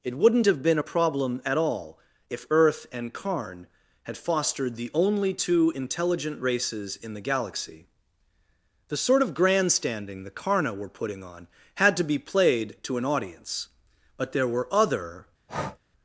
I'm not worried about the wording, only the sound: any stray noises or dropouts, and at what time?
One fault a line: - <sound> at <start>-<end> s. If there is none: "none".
- breath at 15.5-15.8 s